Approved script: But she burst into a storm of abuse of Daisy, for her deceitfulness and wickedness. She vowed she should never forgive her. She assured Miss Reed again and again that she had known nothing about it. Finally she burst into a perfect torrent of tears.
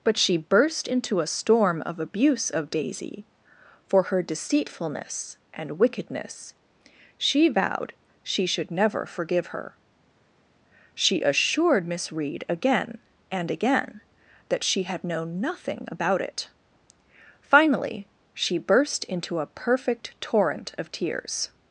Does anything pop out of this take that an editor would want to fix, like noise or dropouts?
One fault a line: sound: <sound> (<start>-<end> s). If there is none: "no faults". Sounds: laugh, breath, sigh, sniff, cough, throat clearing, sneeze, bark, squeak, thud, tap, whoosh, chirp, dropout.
no faults